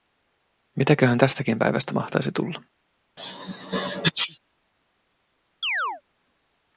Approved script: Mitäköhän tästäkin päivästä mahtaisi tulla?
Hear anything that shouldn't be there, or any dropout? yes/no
yes